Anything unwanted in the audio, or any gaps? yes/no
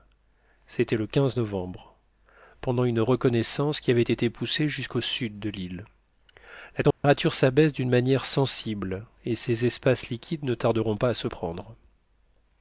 yes